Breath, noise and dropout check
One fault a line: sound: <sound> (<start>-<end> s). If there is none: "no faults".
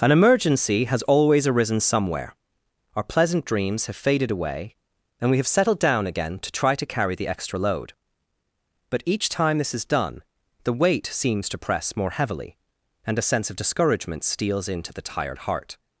no faults